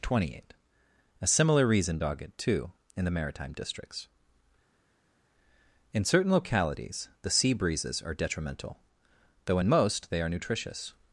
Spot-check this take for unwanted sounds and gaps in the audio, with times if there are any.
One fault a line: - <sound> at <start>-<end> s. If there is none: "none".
none